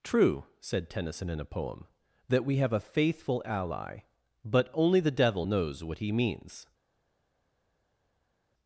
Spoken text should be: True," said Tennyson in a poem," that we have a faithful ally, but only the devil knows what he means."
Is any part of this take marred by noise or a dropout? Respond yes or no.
no